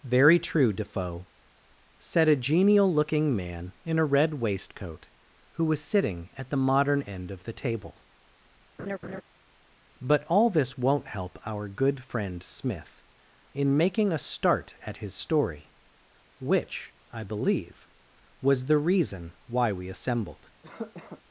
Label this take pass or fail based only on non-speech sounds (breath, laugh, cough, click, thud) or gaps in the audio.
fail